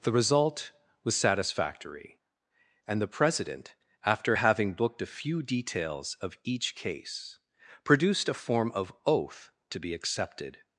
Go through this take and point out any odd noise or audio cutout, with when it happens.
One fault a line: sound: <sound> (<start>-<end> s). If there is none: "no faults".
no faults